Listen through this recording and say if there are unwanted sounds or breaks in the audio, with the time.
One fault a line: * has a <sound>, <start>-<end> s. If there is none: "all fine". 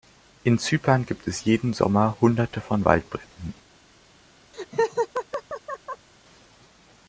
* has a laugh, 4.5-6.1 s